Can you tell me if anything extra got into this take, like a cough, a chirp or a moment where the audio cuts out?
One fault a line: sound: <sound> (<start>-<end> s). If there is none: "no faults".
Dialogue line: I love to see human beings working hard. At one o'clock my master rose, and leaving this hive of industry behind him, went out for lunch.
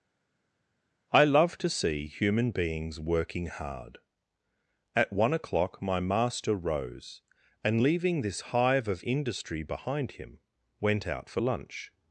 no faults